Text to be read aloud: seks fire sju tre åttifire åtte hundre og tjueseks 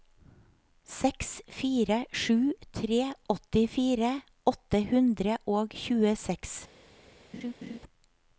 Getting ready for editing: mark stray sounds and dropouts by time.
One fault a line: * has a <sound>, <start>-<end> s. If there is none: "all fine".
* has a laugh, 7.3-7.8 s